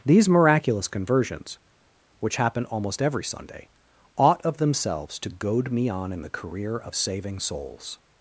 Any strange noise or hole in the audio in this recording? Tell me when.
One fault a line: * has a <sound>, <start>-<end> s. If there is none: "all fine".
all fine